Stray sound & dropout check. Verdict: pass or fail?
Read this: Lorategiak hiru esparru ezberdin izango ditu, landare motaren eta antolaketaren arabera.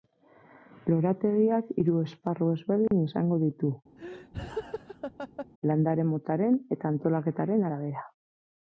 fail